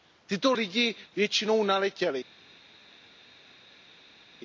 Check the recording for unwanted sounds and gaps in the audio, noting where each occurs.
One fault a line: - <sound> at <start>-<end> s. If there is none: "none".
none